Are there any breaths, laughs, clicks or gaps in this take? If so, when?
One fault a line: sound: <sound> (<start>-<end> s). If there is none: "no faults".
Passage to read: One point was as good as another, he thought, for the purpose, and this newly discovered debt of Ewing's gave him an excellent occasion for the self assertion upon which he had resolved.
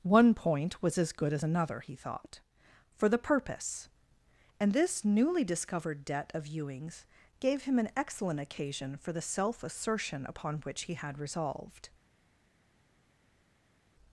no faults